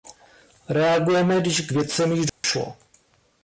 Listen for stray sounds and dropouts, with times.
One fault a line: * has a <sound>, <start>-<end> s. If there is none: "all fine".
* has a dropout, 2.3-2.4 s